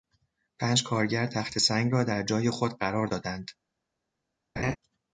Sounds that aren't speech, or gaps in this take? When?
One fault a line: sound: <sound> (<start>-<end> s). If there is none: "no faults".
sound: laugh (4.6-4.8 s)